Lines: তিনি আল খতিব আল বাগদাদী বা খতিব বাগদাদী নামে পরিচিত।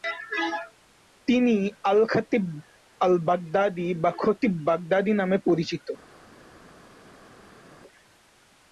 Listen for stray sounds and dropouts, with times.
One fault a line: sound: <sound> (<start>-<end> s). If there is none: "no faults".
no faults